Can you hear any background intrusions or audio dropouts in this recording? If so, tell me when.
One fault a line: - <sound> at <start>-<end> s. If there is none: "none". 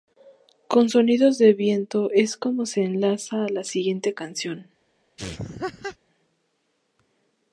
- laugh at 5.2-6.0 s